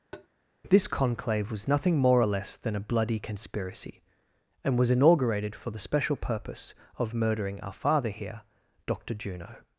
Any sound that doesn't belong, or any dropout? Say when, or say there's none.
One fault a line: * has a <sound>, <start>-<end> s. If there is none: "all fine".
* has a tap, 0.1-0.3 s